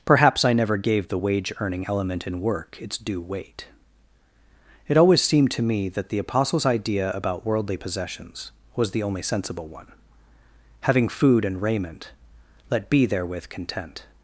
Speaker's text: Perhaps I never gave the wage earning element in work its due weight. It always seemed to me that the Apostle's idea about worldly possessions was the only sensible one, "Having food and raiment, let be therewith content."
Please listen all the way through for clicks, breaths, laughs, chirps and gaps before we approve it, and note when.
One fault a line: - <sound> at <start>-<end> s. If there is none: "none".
none